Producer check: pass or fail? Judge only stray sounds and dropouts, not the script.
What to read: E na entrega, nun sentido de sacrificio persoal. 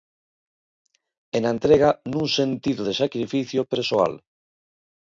pass